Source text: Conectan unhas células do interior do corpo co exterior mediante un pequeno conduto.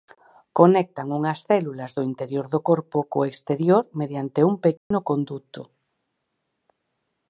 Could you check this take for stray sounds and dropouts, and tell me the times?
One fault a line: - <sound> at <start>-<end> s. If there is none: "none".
- dropout at 4.8-4.9 s